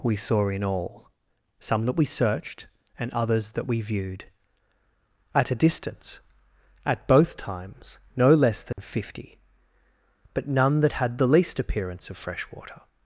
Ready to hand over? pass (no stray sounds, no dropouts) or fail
fail